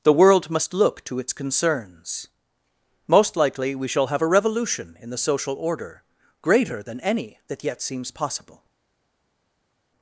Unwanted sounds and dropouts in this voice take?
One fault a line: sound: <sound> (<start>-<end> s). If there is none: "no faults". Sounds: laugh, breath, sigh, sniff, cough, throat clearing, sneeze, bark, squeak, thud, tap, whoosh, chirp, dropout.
no faults